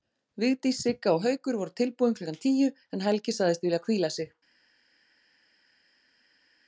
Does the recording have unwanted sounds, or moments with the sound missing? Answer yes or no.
no